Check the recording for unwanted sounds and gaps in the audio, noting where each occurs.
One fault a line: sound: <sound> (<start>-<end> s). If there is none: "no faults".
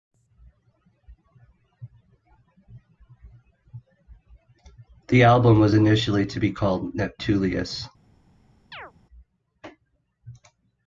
sound: chirp (8.7-8.9 s)